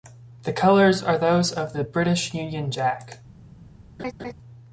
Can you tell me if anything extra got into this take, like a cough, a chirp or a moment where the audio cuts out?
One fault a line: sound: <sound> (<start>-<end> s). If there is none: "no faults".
sound: laugh (4.0-4.3 s)